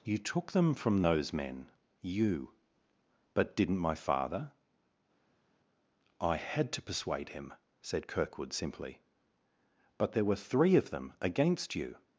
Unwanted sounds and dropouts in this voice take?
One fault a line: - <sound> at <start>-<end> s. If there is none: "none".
none